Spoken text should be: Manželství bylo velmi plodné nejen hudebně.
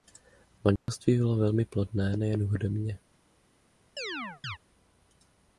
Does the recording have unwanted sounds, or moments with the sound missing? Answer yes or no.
yes